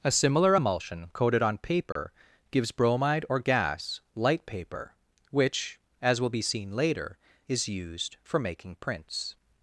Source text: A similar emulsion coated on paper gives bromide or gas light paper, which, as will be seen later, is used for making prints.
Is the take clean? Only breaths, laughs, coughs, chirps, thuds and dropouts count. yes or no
no